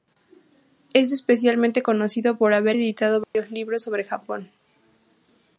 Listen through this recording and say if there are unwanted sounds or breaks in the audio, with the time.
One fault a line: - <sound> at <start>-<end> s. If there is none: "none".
- dropout at 3.2-3.3 s